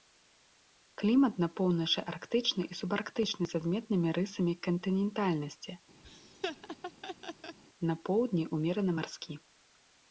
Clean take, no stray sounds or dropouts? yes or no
no